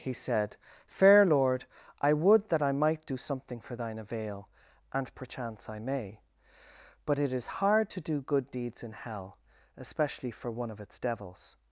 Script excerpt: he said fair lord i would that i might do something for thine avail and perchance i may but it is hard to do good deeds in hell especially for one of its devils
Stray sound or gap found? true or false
false